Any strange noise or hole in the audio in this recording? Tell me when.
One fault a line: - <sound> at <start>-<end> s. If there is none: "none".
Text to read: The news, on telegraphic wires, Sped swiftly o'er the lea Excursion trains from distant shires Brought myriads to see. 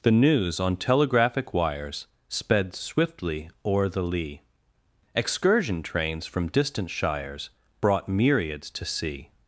none